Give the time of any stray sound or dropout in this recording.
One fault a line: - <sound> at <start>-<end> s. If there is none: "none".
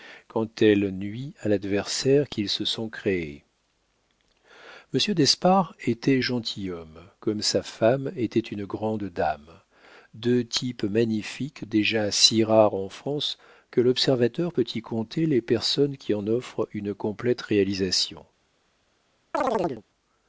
- chirp at 19.3-19.8 s